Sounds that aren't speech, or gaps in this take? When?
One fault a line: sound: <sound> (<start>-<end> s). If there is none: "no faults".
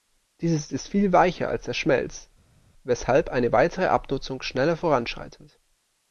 no faults